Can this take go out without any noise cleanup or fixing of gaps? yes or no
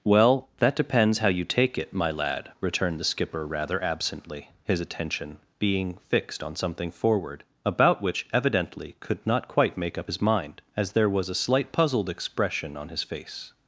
yes